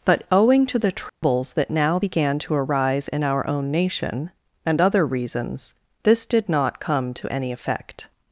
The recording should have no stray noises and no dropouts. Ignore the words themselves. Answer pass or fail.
fail